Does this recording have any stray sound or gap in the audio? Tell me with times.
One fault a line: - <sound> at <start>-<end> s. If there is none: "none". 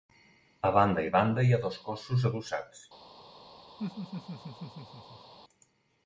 - laugh at 3.8-5.3 s